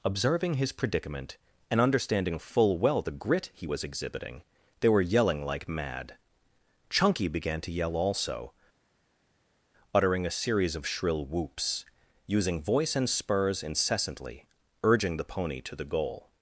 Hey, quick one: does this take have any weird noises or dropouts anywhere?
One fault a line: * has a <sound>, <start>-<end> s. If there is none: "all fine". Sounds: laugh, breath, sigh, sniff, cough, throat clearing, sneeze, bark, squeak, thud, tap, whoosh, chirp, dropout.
all fine